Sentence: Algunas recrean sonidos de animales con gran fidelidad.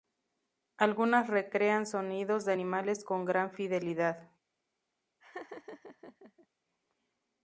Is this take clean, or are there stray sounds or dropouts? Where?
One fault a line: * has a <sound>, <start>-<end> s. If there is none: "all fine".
* has a laugh, 5.2-6.5 s